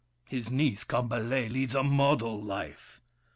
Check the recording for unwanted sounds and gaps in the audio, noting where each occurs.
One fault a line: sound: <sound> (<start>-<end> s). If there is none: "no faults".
no faults